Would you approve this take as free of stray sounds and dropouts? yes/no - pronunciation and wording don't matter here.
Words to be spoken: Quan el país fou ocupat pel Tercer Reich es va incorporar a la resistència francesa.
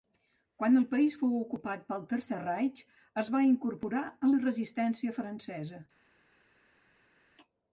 yes